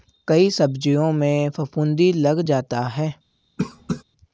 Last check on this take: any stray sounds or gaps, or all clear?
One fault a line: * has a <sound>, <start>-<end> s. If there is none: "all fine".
* has a cough, 3.6-4.0 s